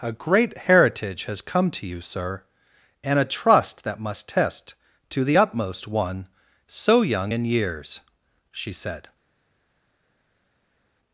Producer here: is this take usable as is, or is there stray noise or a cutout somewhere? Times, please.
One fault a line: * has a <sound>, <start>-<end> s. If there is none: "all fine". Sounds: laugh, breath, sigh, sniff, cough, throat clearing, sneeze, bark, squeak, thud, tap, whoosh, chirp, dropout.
all fine